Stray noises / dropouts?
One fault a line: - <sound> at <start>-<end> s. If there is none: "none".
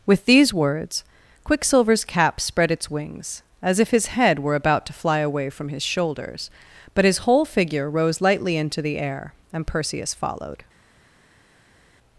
none